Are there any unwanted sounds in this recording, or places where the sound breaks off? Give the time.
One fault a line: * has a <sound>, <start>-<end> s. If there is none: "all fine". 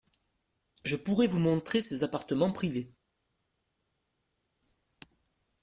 all fine